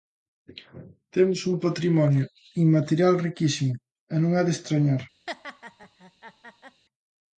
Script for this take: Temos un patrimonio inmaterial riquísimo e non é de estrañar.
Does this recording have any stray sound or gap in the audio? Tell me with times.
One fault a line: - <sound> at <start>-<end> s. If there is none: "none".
- laugh at 5.3-6.8 s